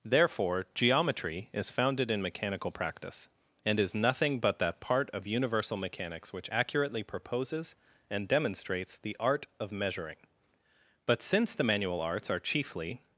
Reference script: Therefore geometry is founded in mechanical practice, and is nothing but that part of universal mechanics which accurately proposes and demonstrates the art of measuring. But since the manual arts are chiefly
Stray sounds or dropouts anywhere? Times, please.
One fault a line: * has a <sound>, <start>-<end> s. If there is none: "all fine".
all fine